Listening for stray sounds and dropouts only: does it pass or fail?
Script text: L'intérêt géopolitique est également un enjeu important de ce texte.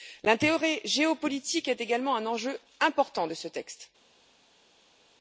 pass